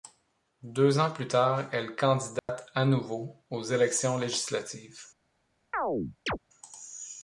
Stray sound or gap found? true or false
true